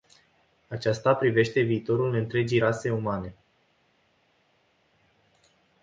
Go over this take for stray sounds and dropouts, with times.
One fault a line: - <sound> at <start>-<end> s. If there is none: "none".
none